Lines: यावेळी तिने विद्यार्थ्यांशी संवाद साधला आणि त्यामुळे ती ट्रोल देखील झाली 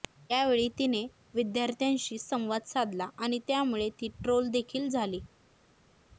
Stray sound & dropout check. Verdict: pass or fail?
pass